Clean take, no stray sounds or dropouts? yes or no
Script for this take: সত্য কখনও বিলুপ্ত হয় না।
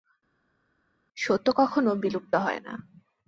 yes